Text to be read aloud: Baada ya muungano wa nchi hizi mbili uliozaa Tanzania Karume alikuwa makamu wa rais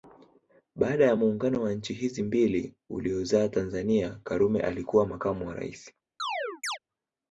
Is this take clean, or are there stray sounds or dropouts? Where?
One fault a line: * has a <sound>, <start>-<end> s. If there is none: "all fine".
* has a chirp, 6.2-6.8 s